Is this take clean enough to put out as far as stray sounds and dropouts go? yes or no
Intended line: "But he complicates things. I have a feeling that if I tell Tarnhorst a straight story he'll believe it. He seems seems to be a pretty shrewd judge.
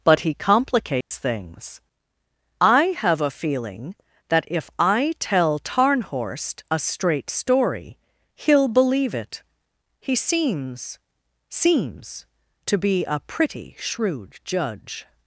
no